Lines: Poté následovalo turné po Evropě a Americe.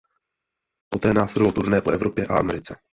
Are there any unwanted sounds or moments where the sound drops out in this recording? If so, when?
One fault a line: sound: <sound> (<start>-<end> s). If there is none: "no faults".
no faults